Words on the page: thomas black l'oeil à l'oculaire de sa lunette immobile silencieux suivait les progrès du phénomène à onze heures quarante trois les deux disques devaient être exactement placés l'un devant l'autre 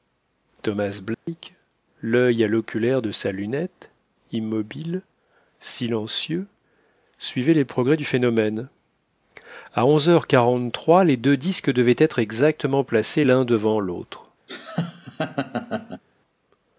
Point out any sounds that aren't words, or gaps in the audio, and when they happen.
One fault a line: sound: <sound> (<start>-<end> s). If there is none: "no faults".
sound: dropout (1.1-1.3 s)
sound: laugh (14.5-16.0 s)